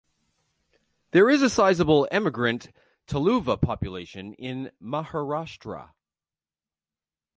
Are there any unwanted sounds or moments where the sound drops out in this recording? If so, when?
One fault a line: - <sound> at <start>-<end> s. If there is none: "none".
none